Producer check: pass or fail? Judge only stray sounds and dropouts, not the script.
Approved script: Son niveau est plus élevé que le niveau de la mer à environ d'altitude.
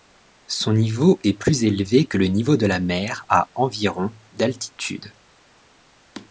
pass